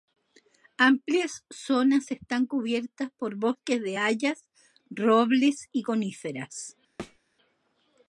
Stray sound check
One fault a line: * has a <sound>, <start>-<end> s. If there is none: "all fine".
* has a thud, 7.0-7.2 s